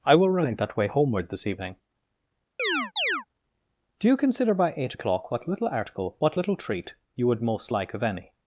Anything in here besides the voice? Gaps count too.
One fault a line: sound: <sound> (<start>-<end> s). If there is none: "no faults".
sound: chirp (2.6-3.3 s)